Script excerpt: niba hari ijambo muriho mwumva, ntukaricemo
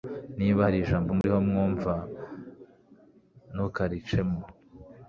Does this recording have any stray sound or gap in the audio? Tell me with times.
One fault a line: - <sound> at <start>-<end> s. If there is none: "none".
- dropout at 1.2-1.2 s